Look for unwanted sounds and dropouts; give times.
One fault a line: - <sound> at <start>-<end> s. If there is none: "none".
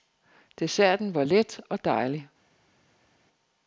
none